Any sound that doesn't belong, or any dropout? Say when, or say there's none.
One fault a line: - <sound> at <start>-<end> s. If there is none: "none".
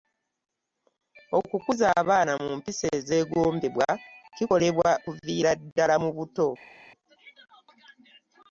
none